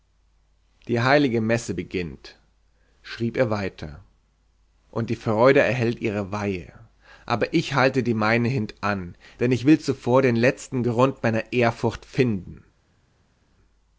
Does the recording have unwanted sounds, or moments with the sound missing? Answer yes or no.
no